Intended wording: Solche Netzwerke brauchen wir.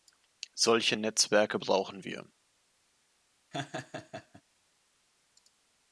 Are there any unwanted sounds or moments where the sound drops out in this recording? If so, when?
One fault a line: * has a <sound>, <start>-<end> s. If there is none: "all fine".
* has a laugh, 3.5-4.4 s